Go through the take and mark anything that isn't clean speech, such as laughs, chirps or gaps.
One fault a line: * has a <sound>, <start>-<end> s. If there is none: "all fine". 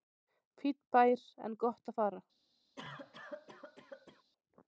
* has a cough, 2.8-4.2 s